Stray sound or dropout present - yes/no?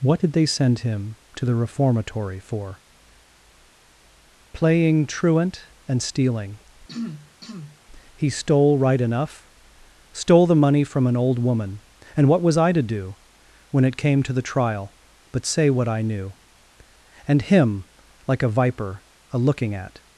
yes